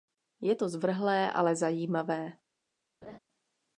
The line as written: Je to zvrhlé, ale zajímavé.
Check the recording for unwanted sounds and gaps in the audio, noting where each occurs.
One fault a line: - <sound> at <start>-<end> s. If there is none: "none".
- laugh at 3.0-3.2 s